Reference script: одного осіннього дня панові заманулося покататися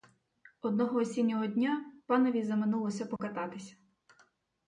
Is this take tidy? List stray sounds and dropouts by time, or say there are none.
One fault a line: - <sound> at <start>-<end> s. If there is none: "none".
- dropout at 3.2-3.2 s